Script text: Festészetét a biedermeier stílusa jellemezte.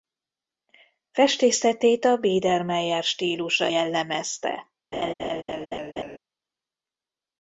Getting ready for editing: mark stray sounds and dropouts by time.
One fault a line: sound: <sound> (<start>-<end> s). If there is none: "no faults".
sound: laugh (4.9-6.2 s)